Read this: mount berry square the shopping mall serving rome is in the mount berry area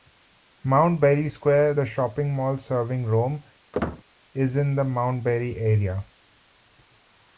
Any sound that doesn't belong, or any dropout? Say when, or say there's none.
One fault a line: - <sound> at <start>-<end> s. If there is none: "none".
- squeak at 3.7-4.0 s